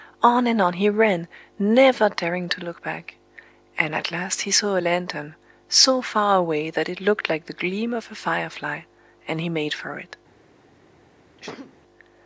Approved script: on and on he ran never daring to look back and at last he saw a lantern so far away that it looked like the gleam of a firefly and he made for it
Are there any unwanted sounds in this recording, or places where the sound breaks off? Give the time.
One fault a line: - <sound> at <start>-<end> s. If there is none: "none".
- sneeze at 11.4-11.8 s